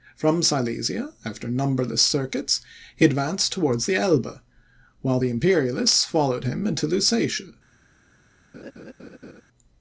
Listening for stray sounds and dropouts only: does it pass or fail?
fail